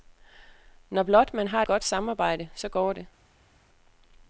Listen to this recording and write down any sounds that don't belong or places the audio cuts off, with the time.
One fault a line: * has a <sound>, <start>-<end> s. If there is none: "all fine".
all fine